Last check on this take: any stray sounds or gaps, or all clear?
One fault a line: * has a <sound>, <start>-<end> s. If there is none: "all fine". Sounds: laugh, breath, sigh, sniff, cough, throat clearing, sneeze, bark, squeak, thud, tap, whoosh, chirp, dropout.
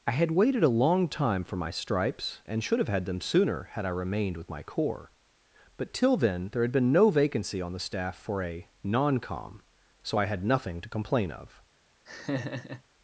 * has a laugh, 12.1-12.8 s